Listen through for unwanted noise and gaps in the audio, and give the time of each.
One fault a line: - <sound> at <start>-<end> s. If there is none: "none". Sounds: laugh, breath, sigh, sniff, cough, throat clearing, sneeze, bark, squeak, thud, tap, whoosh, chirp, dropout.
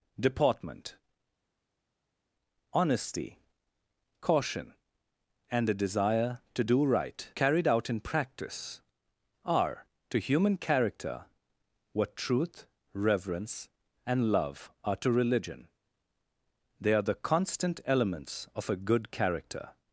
none